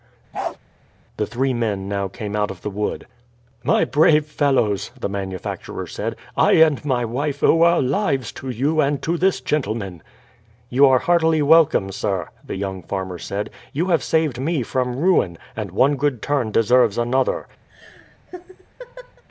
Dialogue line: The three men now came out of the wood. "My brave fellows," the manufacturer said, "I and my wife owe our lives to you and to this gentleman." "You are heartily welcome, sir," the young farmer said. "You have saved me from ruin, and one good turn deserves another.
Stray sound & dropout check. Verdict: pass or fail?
fail